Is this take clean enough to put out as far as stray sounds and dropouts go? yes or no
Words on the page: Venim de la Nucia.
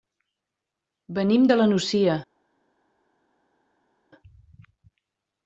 yes